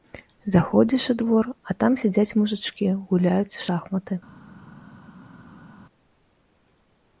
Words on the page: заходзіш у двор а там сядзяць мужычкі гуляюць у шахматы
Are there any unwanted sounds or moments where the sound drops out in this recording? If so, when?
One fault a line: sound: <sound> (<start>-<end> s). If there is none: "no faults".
no faults